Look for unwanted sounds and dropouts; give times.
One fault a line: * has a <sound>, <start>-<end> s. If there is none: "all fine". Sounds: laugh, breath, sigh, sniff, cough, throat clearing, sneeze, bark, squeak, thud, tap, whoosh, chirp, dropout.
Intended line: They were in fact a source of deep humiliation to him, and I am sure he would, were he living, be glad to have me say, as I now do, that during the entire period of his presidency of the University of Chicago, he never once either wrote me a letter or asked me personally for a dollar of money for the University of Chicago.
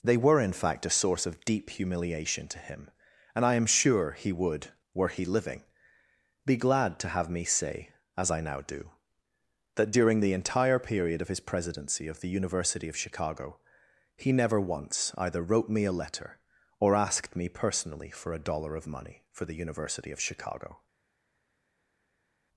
all fine